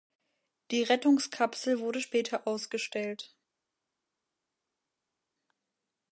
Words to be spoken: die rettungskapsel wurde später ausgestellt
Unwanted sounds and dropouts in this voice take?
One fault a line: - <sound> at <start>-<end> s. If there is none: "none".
none